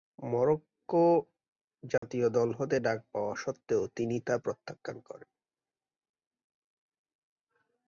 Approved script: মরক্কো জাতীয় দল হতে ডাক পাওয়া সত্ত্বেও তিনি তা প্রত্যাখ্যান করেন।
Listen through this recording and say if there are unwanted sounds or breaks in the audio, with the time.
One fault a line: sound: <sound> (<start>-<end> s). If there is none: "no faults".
sound: dropout (2.0-2.0 s)